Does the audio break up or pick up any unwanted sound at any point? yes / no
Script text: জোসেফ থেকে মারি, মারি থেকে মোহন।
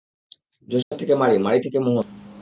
yes